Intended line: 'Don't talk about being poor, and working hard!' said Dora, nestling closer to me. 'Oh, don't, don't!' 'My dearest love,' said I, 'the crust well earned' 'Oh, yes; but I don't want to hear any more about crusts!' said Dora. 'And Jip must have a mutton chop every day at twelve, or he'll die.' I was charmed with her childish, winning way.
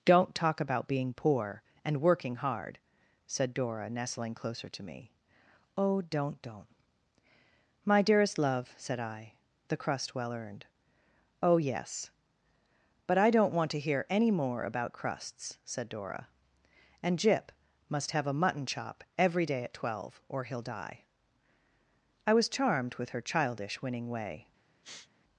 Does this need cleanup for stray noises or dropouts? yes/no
yes